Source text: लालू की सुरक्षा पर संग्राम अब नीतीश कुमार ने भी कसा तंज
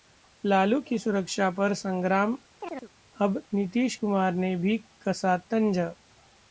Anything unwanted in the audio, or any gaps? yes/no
yes